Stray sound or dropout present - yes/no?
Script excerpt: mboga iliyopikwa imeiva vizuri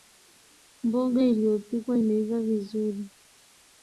no